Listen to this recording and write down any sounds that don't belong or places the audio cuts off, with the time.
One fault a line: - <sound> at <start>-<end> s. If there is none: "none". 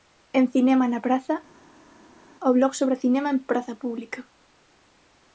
none